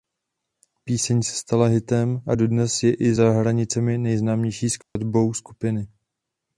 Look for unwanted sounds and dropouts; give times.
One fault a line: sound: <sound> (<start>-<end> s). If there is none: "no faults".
sound: dropout (4.8-5.0 s)